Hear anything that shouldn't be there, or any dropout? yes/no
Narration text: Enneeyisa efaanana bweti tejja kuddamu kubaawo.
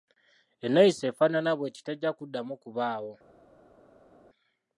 no